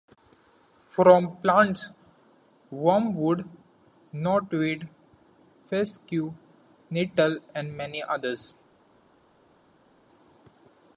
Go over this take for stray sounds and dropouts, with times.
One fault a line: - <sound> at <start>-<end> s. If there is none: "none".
none